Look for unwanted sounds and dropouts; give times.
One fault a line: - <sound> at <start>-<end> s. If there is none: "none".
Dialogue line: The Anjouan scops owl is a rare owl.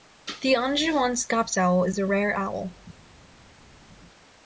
none